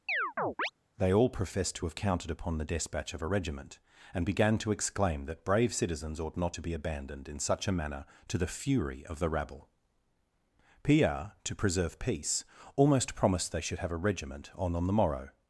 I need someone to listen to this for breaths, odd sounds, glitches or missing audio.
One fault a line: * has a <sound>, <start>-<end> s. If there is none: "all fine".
* has a chirp, 0.1-0.7 s